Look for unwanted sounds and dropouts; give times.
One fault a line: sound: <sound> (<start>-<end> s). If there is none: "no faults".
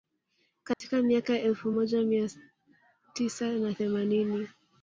sound: dropout (0.7-0.8 s)